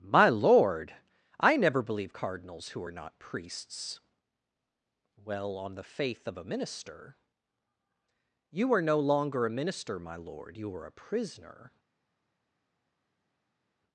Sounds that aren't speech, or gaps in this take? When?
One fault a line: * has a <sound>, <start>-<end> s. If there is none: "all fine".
all fine